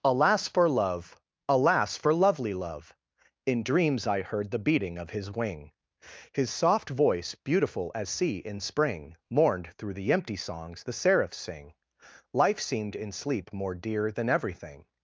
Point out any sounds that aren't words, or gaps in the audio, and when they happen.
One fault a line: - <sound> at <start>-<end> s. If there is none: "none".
none